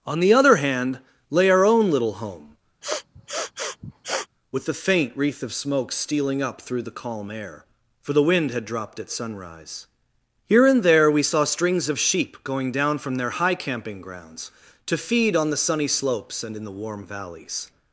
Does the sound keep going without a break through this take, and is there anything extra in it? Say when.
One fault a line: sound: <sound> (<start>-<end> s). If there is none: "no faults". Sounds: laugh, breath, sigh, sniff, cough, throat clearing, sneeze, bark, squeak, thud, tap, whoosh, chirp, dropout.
sound: sniff (2.8-4.3 s)